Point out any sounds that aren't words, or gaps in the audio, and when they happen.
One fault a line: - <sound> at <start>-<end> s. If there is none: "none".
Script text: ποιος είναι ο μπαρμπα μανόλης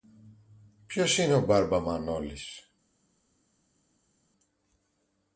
none